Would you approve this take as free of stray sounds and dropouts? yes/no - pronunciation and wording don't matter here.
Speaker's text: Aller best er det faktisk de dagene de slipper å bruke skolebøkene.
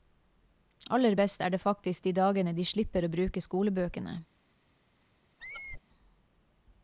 no